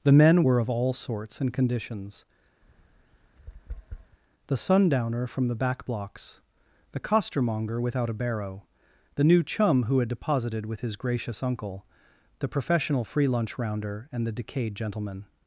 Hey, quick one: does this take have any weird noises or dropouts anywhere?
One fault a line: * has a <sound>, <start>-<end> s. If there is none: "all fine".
* has a tap, 2.6-4.2 s